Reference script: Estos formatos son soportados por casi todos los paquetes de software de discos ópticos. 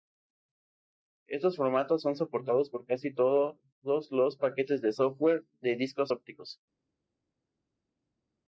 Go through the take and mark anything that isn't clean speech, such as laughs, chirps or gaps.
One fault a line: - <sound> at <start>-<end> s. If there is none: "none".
none